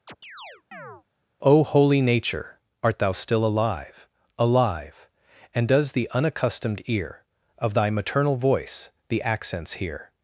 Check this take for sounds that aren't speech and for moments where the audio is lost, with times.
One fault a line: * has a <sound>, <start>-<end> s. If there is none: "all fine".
* has a chirp, 0.1-1.0 s